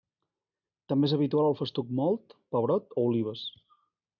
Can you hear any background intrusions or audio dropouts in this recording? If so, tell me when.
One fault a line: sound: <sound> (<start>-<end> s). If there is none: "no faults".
no faults